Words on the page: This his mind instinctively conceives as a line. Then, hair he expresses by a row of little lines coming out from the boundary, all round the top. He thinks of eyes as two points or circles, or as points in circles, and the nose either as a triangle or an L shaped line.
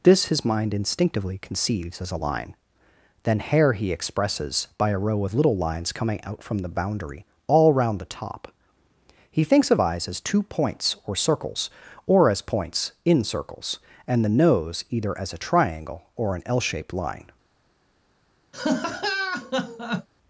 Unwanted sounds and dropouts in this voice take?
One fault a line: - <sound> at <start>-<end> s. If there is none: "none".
- laugh at 18.5-20.1 s